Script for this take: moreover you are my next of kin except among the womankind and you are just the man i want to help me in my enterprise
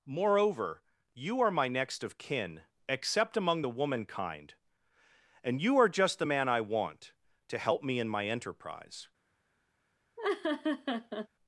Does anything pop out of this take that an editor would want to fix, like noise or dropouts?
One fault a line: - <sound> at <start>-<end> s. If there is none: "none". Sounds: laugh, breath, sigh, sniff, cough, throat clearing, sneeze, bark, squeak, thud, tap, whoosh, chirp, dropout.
- laugh at 10.2-11.3 s